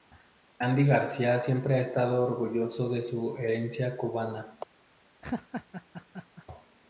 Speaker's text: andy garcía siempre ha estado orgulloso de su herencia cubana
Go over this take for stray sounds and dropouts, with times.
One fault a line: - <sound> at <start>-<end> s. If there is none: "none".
- laugh at 5.2-6.5 s